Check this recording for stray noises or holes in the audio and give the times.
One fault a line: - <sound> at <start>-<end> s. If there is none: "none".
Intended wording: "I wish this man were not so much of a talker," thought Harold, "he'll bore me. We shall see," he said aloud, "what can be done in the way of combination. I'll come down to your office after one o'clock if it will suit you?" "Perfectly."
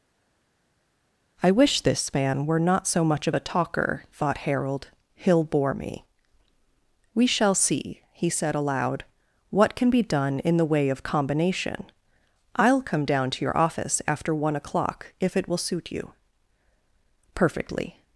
none